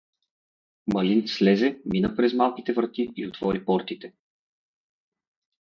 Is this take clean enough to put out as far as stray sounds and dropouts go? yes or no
yes